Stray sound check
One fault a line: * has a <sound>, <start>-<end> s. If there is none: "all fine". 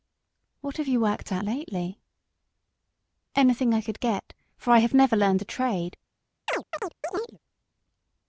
* has a chirp, 6.5-7.4 s